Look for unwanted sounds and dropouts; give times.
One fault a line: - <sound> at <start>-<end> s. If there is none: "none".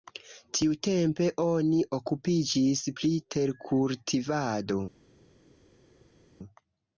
none